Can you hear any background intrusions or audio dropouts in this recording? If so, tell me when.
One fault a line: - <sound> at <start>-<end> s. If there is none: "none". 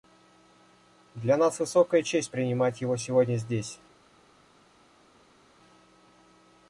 none